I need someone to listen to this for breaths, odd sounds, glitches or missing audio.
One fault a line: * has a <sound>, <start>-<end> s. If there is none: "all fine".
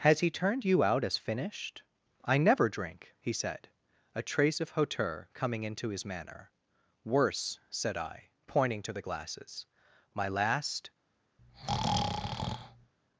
* has a breath, 11.4-12.9 s